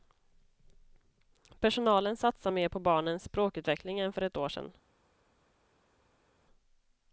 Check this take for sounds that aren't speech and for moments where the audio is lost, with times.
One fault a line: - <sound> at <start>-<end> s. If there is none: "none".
none